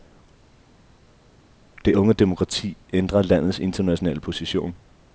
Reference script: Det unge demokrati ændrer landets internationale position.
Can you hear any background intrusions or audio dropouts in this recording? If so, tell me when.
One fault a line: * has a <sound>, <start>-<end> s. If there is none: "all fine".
all fine